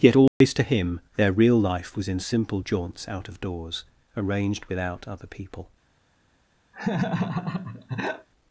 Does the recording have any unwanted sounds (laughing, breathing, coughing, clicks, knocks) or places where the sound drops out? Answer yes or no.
yes